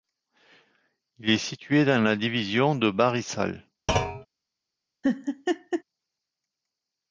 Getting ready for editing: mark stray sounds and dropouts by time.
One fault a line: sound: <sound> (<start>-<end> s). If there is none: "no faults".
sound: thud (3.9-4.3 s)
sound: laugh (5.0-5.8 s)